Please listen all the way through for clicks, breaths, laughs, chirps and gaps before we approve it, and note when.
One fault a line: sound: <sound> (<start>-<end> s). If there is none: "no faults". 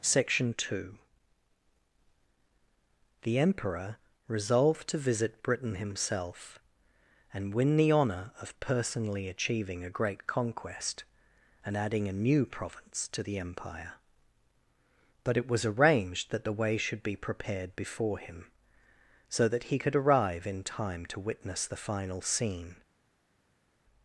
no faults